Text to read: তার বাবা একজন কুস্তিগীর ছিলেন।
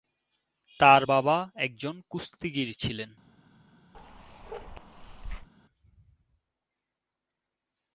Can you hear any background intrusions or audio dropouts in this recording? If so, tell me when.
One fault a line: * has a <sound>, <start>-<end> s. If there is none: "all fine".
* has a bark, 3.9-5.5 s